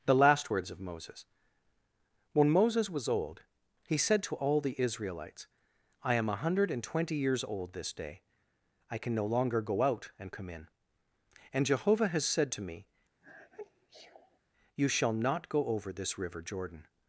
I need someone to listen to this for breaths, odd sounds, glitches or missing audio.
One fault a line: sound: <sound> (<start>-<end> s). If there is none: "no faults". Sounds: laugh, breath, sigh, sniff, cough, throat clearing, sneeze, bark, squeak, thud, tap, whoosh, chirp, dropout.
sound: sneeze (13.2-14.4 s)